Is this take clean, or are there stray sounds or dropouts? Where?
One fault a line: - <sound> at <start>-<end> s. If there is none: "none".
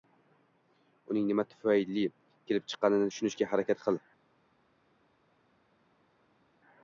none